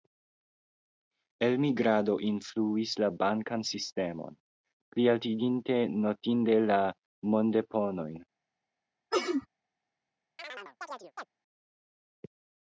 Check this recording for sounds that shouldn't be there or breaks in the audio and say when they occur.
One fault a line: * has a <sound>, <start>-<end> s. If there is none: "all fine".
* has a sneeze, 9.1-9.5 s
* has a chirp, 10.4-11.3 s